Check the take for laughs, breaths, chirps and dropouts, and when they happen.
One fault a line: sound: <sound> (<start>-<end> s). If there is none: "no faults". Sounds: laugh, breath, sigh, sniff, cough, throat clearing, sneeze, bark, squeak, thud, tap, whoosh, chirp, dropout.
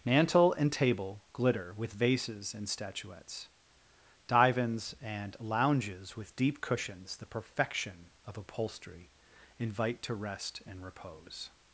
no faults